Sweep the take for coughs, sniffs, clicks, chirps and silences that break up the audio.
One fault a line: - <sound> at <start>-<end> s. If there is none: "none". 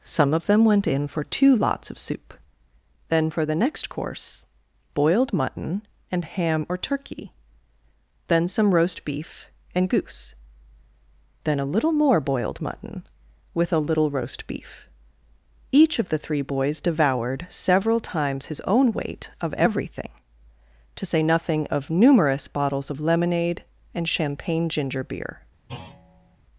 - thud at 25.7-26.4 s